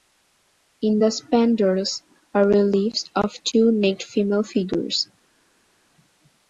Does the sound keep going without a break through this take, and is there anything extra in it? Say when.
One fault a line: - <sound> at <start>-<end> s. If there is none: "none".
none